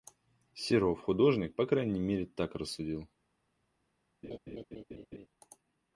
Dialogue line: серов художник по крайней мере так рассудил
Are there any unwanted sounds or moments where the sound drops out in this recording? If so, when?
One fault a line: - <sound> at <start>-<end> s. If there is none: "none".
- laugh at 4.2-5.3 s